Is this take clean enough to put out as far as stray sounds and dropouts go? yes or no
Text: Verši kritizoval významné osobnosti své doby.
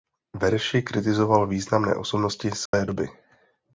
no